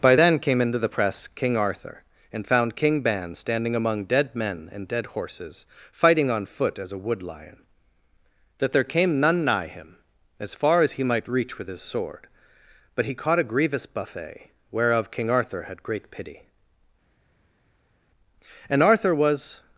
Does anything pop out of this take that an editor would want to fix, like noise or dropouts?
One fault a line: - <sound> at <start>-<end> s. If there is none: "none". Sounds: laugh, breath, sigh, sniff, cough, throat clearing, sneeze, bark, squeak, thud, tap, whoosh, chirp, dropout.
none